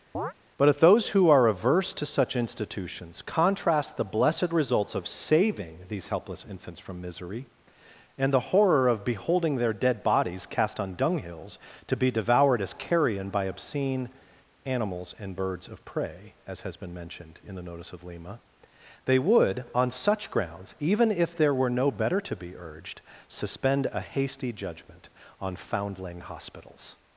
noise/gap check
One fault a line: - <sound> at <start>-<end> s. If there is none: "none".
- chirp at 0.1-0.3 s